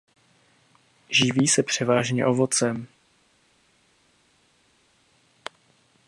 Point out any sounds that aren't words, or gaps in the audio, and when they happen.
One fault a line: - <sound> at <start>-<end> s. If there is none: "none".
none